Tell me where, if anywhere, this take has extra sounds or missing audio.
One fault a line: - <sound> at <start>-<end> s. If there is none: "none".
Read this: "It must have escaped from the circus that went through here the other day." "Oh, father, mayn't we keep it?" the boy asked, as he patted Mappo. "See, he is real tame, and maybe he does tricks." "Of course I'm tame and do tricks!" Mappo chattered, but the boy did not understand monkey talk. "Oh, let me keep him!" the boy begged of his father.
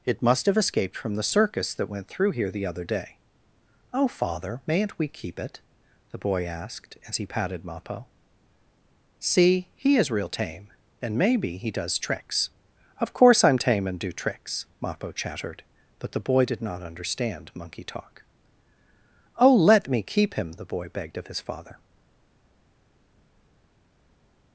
none